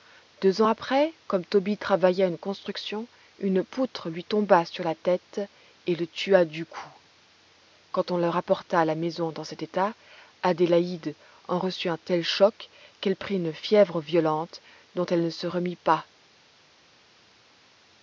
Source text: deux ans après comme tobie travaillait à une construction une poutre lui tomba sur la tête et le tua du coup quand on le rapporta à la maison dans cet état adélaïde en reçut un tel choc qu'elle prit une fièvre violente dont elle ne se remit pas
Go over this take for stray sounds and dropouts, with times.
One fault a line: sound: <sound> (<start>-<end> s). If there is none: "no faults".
no faults